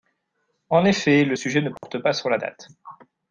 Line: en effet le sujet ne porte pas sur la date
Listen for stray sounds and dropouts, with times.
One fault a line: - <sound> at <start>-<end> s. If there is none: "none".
- dropout at 1.8-1.8 s